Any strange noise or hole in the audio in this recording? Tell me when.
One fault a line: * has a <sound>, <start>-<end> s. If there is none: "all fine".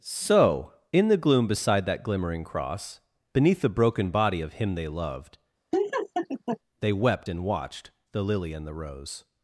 * has a laugh, 5.7-6.6 s